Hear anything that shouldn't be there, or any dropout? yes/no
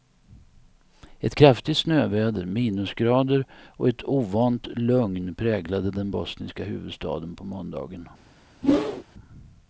yes